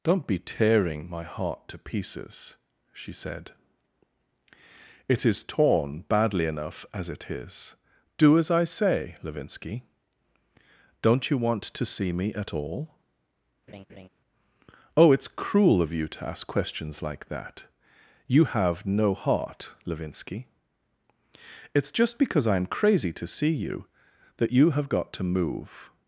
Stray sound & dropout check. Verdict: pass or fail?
fail